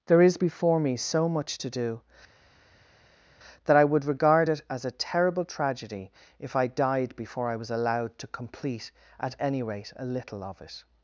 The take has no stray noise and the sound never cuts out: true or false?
true